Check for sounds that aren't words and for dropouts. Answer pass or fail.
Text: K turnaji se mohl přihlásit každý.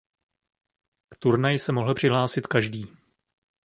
pass